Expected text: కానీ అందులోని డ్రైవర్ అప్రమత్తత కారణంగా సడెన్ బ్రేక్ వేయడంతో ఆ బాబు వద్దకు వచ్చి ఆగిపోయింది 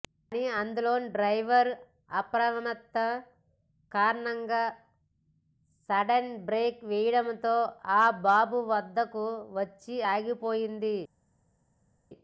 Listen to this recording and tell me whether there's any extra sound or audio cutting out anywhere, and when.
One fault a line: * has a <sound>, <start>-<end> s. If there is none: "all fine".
all fine